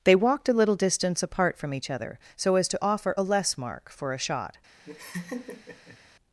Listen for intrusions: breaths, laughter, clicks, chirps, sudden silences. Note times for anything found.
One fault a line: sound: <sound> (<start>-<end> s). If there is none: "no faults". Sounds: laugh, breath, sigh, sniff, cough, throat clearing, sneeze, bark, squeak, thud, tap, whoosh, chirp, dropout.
sound: laugh (4.8-6.0 s)